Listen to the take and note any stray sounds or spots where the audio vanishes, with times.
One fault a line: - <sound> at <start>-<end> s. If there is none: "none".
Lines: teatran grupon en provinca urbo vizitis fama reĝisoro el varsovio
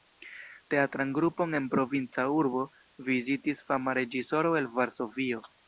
none